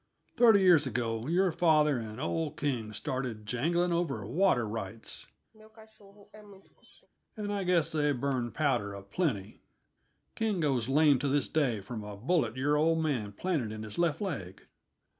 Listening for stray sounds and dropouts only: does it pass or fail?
fail